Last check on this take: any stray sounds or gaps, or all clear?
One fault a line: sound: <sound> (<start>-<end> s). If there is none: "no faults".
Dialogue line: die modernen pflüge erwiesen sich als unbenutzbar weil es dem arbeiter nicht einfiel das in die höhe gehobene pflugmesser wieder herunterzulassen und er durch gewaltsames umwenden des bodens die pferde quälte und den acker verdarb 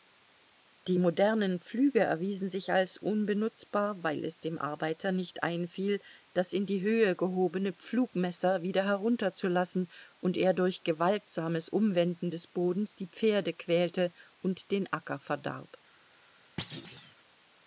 sound: thud (16.6-17.1 s)